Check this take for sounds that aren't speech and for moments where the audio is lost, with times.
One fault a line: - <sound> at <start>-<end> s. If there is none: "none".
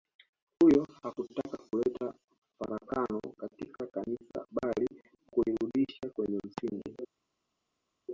none